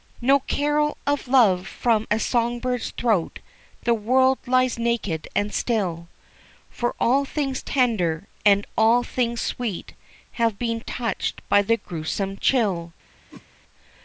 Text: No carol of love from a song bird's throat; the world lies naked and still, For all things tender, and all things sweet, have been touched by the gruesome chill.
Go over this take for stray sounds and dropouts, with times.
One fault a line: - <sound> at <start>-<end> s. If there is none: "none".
- whoosh at 13.3-13.5 s